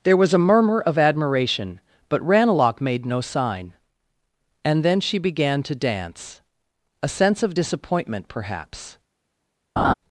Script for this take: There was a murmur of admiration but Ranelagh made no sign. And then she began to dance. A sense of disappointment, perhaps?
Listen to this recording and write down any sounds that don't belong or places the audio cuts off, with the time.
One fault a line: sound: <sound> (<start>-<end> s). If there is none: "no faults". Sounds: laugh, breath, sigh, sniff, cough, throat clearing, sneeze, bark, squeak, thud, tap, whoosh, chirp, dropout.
sound: laugh (9.8-9.9 s)